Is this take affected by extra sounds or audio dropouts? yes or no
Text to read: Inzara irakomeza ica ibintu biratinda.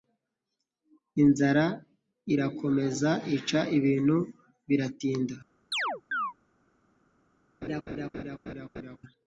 yes